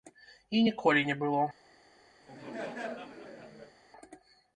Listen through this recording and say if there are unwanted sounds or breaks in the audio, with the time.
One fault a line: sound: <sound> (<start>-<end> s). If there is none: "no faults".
sound: laugh (2.2-3.8 s)